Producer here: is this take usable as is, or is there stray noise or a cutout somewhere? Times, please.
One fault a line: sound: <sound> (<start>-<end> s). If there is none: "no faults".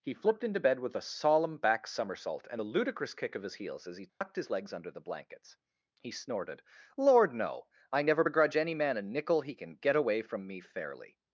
sound: dropout (4.1-4.2 s)